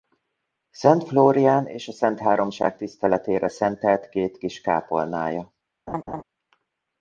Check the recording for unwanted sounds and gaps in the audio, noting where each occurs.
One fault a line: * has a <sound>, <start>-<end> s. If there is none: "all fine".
* has a laugh, 5.9-6.2 s